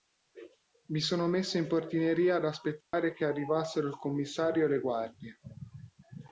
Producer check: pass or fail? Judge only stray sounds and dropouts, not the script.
fail